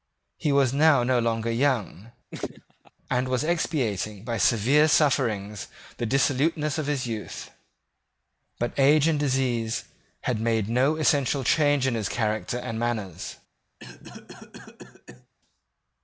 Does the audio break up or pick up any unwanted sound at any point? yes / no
yes